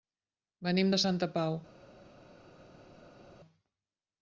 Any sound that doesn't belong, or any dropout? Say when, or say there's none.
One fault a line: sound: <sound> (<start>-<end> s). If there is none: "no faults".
no faults